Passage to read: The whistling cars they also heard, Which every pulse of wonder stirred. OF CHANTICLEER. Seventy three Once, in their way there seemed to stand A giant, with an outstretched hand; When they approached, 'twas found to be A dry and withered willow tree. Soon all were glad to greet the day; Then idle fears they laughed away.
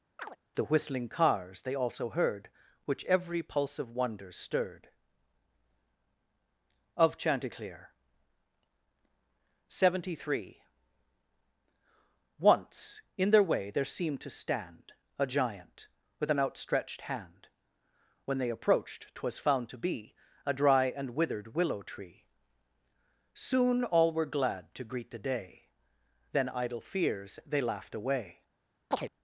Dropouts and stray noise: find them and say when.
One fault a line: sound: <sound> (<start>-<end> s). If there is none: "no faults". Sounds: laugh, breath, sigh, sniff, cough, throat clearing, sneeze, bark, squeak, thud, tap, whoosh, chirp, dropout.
sound: chirp (0.2-0.4 s)
sound: chirp (28.9-29.1 s)